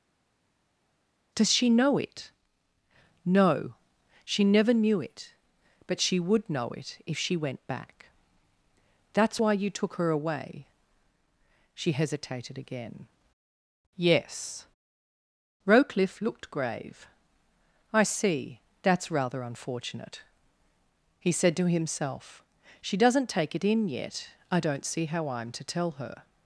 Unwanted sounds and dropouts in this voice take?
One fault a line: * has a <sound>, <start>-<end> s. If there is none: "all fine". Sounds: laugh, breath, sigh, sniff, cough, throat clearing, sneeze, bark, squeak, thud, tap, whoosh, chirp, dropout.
all fine